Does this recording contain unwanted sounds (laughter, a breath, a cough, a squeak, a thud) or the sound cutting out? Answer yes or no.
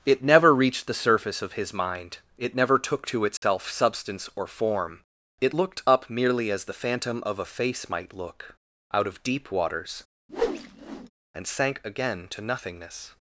yes